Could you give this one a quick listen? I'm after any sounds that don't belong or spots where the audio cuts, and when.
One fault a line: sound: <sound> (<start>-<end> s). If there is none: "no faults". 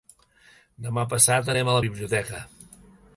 no faults